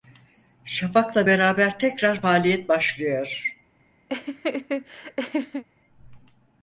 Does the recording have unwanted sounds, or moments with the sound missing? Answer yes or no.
yes